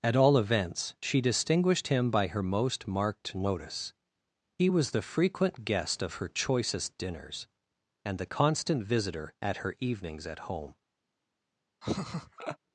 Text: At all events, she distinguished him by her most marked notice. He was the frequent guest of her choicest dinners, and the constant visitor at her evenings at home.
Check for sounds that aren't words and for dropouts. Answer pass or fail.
fail